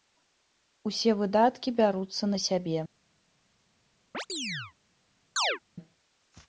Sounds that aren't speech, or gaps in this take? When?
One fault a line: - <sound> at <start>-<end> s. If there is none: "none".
- chirp at 4.1-4.7 s
- chirp at 5.4-5.6 s